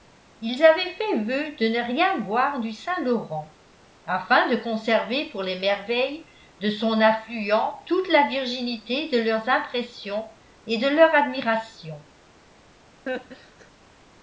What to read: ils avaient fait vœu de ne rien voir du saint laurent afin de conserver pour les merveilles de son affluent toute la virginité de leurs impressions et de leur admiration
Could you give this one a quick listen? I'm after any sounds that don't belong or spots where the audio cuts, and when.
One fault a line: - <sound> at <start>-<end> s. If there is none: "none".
- laugh at 13.1-13.7 s